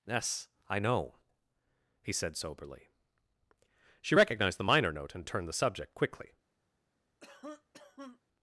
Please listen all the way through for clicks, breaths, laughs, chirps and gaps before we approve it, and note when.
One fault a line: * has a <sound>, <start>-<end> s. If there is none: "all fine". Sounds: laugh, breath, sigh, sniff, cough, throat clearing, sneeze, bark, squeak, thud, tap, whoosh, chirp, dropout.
* has a cough, 7.2-8.2 s